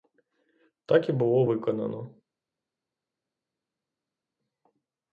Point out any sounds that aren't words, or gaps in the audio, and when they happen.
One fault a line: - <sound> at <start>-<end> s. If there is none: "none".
none